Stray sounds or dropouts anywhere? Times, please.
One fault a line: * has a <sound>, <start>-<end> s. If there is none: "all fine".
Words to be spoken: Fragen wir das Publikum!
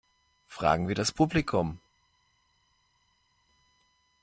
all fine